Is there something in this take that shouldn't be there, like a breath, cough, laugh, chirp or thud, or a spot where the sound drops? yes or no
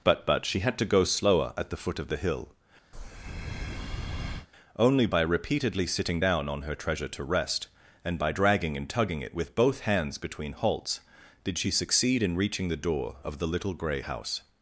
yes